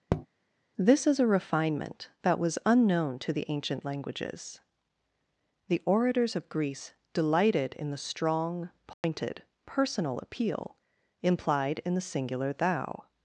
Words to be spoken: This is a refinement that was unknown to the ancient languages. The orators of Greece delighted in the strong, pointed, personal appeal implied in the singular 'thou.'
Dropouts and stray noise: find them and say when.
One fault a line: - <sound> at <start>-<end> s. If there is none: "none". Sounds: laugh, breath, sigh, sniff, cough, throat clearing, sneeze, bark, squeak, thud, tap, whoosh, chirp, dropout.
- tap at 0.1-0.3 s
- dropout at 8.9-9.0 s